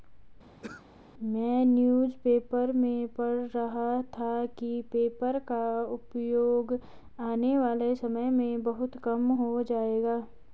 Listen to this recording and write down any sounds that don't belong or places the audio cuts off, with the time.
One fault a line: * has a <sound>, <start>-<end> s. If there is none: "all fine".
* has a throat clearing, 0.6-0.9 s